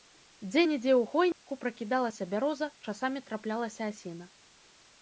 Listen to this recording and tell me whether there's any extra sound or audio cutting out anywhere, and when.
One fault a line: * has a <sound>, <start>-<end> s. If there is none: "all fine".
* has a dropout, 1.3-1.5 s